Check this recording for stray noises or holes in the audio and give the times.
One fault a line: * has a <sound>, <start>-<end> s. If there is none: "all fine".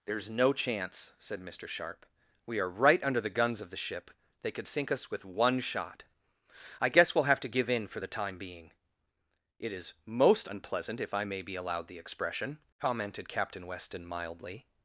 all fine